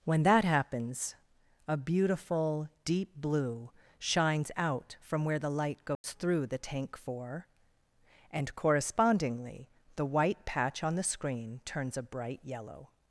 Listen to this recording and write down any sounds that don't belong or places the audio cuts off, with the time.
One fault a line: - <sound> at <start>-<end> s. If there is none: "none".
- dropout at 5.9-6.0 s